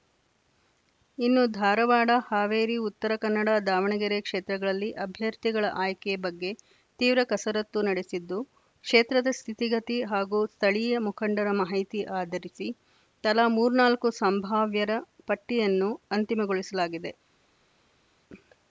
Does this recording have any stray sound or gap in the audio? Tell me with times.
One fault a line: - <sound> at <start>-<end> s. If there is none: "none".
none